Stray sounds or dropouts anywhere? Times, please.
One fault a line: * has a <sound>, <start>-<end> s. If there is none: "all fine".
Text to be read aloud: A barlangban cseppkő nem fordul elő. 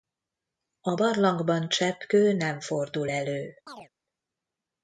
* has a chirp, 3.7-3.9 s